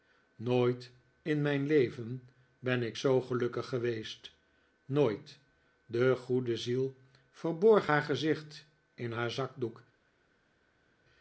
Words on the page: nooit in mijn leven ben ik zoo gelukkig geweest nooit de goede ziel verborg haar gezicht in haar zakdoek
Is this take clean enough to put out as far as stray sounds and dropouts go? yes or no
yes